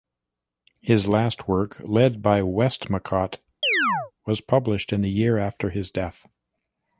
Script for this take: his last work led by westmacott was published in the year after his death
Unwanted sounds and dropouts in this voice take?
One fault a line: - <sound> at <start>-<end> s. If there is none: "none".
- chirp at 3.6-4.1 s